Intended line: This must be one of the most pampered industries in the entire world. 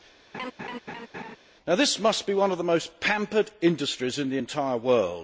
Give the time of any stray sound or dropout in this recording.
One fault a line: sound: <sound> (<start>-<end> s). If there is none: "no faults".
sound: laugh (0.3-1.4 s)